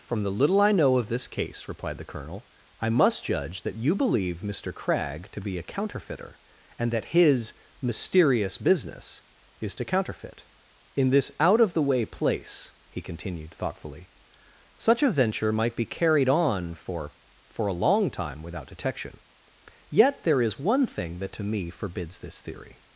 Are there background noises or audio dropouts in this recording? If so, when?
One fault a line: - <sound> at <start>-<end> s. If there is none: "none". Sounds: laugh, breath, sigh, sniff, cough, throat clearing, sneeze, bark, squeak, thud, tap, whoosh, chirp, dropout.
none